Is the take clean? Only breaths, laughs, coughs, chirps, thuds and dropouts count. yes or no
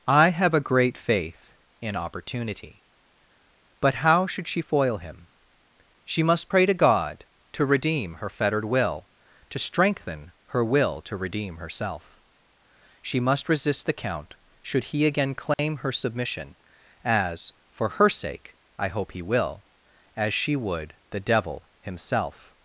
no